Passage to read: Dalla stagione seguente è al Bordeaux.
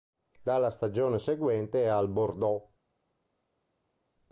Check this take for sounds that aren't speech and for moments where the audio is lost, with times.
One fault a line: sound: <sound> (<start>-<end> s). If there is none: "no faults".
no faults